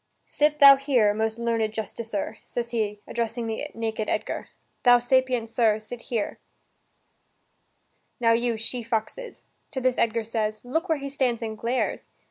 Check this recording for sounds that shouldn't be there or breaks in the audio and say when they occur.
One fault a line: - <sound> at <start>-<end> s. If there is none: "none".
none